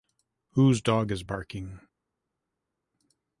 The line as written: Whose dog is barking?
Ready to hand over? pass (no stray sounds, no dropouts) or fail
pass